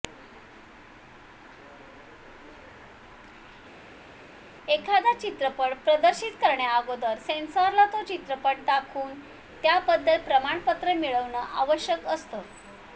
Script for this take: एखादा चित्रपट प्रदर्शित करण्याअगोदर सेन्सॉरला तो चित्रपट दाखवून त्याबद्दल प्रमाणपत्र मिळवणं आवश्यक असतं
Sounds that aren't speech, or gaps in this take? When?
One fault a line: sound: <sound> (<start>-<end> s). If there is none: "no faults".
no faults